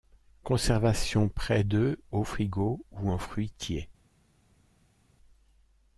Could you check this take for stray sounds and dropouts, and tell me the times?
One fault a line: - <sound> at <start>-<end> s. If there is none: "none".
none